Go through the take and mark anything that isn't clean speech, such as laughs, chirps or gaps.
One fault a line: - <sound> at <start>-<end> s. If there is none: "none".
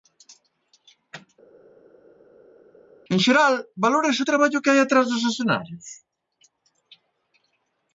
none